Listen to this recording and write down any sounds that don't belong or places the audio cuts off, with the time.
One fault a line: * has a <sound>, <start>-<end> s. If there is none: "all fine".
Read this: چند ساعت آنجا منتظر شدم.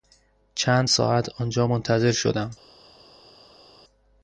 all fine